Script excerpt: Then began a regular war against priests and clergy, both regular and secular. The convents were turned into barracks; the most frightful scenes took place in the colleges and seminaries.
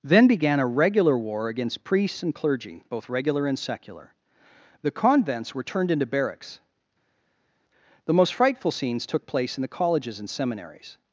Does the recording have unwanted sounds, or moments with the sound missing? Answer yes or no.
no